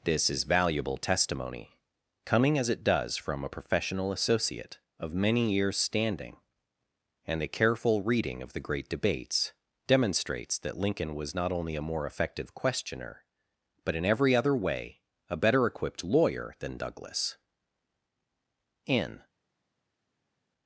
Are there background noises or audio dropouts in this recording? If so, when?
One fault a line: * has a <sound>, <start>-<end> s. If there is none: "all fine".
all fine